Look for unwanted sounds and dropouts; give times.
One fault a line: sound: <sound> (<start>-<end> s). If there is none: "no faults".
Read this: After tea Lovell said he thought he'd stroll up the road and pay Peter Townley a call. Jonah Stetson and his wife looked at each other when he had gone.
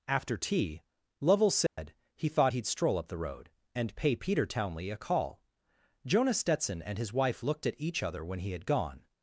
sound: dropout (1.7-1.8 s)